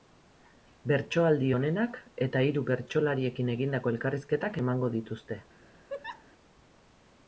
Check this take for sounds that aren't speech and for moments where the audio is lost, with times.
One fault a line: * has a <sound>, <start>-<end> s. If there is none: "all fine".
* has a laugh, 5.9-6.3 s